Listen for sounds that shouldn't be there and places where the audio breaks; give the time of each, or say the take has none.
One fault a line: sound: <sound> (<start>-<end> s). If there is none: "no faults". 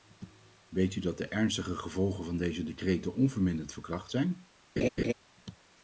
sound: laugh (4.8-5.1 s)